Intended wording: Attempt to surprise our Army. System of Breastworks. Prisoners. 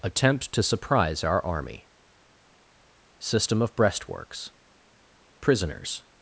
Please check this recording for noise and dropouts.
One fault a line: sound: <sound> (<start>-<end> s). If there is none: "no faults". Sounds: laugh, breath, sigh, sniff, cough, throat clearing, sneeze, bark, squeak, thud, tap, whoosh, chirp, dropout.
no faults